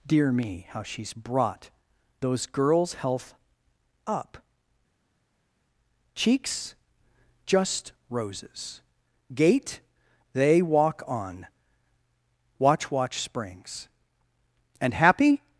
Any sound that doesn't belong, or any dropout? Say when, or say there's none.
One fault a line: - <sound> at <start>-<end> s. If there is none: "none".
none